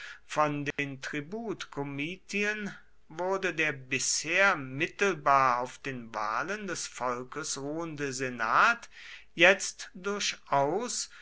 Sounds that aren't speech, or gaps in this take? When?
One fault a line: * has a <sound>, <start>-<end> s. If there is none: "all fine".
* has a dropout, 0.7-0.8 s